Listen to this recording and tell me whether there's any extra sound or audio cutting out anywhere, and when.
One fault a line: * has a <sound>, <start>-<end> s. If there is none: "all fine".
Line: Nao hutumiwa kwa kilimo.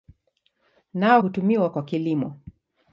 all fine